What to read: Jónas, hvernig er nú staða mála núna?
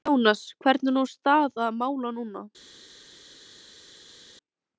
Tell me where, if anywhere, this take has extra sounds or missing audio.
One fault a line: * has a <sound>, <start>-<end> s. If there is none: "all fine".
all fine